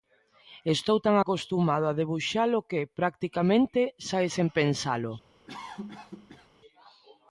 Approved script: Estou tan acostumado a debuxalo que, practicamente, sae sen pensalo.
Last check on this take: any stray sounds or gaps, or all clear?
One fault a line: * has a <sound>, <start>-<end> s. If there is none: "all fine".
* has a cough, 5.5-6.5 s